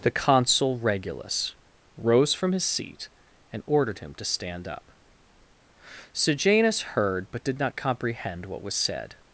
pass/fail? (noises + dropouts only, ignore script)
pass